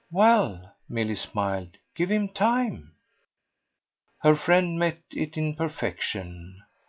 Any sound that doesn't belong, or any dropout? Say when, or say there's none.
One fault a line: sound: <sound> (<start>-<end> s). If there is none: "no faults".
no faults